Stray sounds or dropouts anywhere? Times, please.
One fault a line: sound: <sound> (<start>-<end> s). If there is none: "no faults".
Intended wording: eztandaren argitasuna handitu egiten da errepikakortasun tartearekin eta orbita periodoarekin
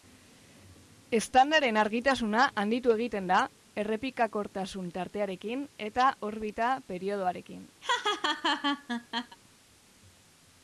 sound: laugh (7.8-9.4 s)